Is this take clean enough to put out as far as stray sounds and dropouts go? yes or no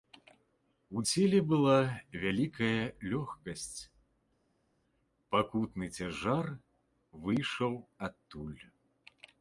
yes